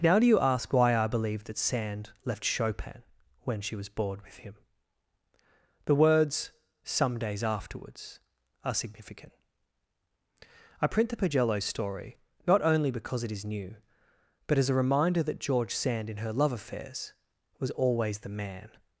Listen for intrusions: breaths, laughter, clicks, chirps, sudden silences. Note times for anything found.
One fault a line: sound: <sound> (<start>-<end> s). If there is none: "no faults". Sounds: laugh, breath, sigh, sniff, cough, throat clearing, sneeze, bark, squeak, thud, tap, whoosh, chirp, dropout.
no faults